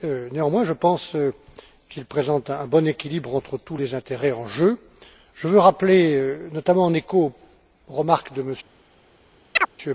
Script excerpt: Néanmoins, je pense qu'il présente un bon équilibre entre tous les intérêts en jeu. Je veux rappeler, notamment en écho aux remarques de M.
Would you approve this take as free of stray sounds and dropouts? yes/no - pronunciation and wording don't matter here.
no